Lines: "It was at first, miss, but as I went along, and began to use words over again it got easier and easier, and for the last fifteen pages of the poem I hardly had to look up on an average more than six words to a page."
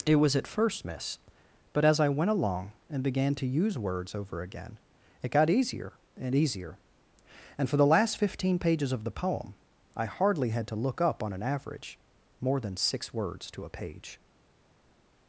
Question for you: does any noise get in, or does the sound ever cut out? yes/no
no